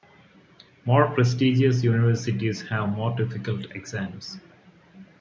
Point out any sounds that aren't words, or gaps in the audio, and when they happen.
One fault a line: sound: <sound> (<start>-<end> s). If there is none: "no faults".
no faults